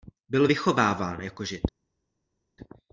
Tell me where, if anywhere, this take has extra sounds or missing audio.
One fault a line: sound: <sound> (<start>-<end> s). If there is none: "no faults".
no faults